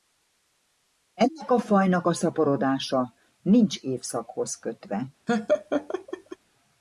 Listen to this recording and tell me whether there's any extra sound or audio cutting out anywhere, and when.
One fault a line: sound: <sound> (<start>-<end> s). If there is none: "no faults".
sound: laugh (5.3-6.4 s)